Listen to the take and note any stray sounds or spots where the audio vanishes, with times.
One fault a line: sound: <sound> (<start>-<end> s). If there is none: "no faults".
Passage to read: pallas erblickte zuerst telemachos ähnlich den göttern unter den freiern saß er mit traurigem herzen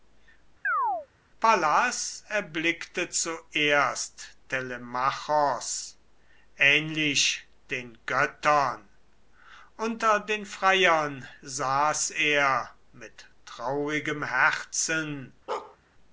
sound: chirp (0.6-1.1 s)
sound: bark (15.5-15.8 s)